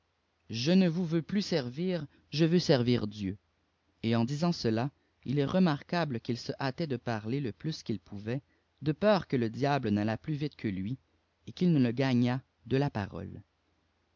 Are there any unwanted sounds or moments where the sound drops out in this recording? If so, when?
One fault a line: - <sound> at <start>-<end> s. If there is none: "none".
none